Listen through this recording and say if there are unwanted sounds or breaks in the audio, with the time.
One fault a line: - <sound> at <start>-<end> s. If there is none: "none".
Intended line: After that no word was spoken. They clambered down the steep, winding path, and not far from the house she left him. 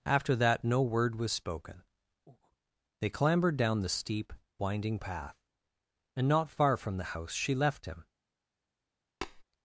- breath at 2.3-2.6 s
- tap at 9.2-9.4 s